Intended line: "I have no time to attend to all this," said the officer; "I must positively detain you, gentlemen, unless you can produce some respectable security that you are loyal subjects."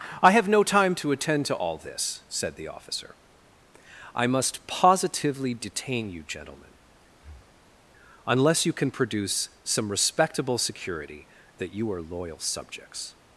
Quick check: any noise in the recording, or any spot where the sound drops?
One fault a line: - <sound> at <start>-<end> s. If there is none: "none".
- breath at 7.1-7.8 s